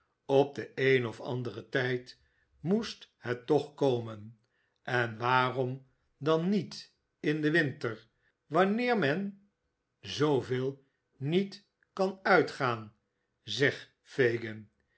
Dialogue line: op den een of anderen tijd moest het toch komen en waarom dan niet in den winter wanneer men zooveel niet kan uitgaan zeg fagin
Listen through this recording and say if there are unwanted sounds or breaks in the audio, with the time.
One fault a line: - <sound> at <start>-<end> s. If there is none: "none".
none